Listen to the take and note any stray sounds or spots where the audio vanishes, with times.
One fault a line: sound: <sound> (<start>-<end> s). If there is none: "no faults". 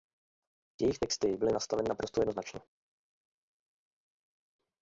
no faults